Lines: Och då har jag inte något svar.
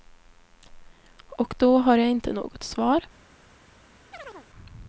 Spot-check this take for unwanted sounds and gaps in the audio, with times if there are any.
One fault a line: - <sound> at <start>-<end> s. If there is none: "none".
- chirp at 4.1-4.5 s